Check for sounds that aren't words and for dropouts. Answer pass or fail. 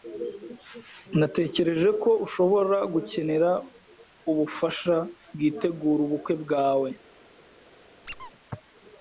fail